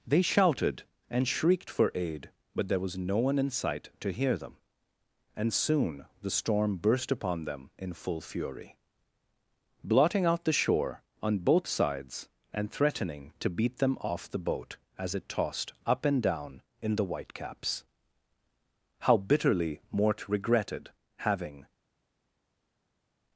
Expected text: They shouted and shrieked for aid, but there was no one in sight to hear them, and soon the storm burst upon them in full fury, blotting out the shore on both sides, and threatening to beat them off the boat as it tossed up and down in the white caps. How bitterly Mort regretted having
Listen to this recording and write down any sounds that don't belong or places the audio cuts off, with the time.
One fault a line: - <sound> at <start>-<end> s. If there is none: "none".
none